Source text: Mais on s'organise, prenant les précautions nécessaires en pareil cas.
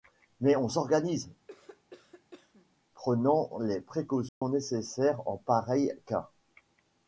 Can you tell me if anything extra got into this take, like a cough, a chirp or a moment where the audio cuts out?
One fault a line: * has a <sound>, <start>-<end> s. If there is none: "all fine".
* has a cough, 1.5-2.7 s
* has a dropout, 4.3-4.4 s